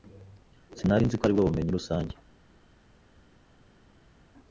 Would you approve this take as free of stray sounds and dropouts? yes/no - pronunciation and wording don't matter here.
yes